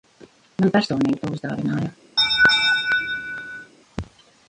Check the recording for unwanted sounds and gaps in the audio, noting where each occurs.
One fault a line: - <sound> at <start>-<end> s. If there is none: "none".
- laugh at 2.2-3.7 s